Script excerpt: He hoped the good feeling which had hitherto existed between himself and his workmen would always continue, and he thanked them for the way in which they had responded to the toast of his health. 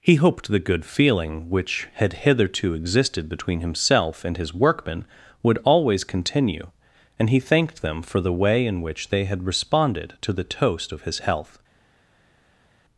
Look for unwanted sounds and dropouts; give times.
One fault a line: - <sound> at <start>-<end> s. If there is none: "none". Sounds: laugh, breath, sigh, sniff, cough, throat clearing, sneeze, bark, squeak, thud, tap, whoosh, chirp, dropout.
none